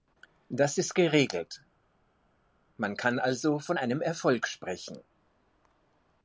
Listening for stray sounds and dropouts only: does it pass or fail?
pass